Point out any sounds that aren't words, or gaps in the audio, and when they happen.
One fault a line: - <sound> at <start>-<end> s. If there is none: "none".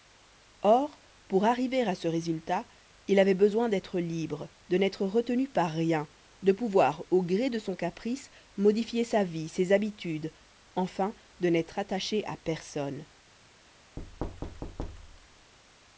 - thud at 14.0-15.5 s